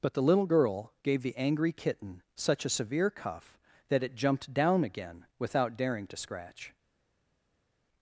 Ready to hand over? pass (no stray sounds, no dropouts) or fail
pass